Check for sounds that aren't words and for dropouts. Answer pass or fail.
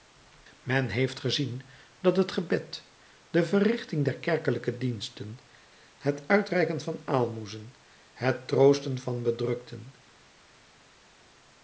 pass